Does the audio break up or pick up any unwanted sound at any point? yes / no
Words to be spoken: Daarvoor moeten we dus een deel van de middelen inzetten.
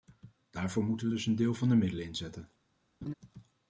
yes